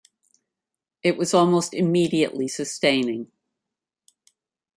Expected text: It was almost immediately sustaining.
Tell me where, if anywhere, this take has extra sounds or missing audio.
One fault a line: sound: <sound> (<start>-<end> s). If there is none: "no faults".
no faults